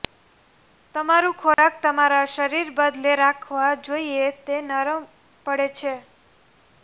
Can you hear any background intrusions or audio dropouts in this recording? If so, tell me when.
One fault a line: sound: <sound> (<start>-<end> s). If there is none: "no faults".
sound: dropout (1.5-1.6 s)